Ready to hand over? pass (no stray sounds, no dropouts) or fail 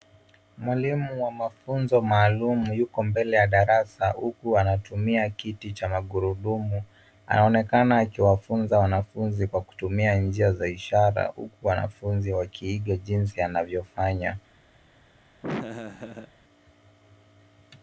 fail